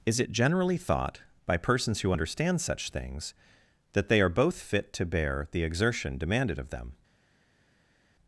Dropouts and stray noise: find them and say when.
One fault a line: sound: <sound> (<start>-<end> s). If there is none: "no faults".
no faults